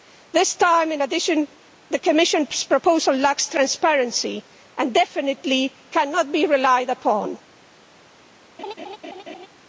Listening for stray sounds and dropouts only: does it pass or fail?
fail